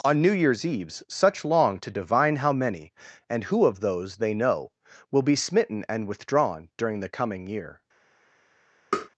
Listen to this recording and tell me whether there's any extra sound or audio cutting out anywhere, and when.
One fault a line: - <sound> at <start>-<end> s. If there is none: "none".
- tap at 8.9-9.1 s